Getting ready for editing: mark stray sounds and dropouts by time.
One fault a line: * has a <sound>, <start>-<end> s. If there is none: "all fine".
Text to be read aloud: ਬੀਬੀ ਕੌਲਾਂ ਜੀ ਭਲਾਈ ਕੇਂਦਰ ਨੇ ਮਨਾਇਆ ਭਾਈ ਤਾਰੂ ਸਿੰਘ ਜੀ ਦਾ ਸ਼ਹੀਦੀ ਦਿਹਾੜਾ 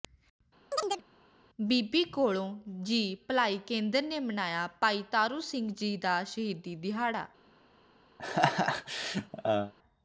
* has a chirp, 0.7-1.0 s
* has a laugh, 8.2-9.7 s